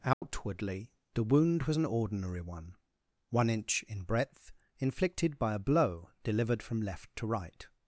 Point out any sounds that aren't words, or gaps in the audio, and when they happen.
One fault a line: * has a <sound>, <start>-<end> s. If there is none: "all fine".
* has a dropout, 0.1-0.2 s